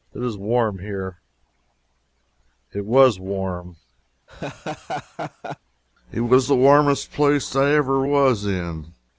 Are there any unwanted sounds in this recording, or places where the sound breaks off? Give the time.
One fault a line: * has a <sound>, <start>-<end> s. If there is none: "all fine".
* has a laugh, 4.3-5.6 s